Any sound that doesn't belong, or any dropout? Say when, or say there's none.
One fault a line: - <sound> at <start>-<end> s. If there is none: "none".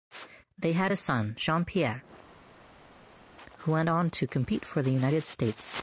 none